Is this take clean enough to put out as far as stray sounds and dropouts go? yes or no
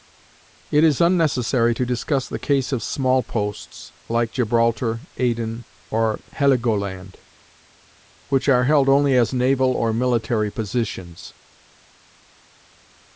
yes